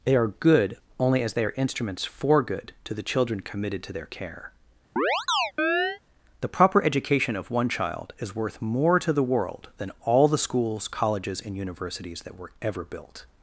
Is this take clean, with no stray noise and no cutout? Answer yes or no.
no